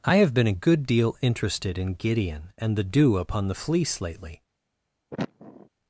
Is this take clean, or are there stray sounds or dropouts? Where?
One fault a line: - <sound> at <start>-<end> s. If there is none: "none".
- sniff at 5.1-5.7 s